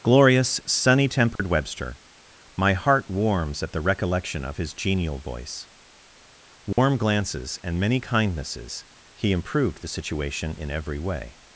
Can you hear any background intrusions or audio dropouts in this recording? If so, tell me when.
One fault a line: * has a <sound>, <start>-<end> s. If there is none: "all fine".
* has a dropout, 1.4-1.4 s
* has a dropout, 6.7-6.8 s